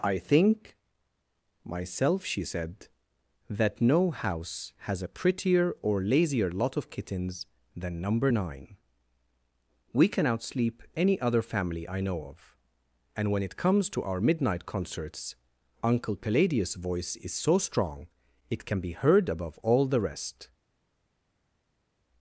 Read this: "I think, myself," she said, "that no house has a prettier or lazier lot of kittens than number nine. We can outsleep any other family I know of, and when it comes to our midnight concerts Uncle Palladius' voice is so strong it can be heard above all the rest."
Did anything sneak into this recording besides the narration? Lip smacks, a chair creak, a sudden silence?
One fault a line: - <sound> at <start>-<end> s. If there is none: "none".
none